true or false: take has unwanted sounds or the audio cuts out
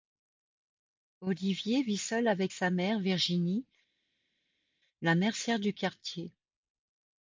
false